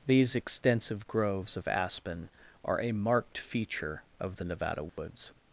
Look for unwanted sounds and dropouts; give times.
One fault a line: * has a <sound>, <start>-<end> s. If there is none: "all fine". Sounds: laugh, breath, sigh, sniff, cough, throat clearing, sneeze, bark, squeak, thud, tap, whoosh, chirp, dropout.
* has a dropout, 4.9-5.0 s